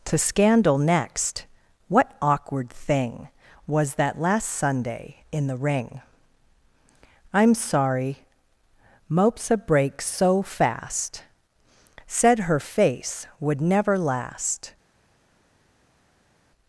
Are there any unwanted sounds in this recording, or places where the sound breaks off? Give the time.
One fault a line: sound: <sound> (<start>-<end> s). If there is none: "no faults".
no faults